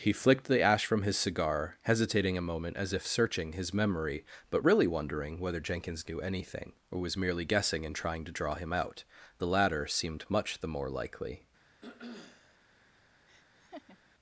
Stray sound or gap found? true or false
true